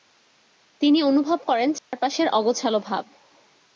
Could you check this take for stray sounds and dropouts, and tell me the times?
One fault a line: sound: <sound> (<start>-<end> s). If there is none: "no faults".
sound: dropout (1.8-1.9 s)